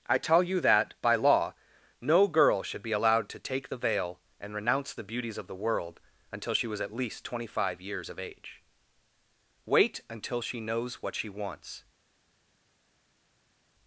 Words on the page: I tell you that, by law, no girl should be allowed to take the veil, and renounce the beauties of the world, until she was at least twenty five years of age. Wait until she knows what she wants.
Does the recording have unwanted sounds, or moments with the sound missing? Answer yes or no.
no